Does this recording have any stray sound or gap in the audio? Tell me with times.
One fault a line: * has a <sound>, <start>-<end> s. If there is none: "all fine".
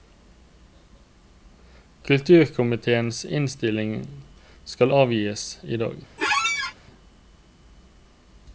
* has a squeak, 6.2-6.7 s